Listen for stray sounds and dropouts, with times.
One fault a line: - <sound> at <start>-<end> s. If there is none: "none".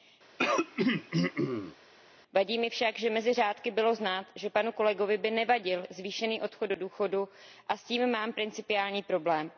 - throat clearing at 0.4-1.8 s